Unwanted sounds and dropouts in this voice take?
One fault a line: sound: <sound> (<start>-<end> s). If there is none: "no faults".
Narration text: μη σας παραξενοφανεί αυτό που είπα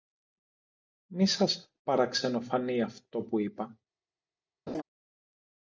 sound: laugh (4.7-4.8 s)